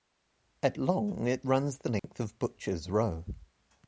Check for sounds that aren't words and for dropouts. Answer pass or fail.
fail